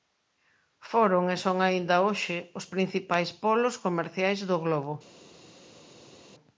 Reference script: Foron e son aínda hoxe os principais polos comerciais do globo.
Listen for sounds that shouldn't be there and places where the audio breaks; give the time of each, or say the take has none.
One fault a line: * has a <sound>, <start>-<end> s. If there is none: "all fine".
all fine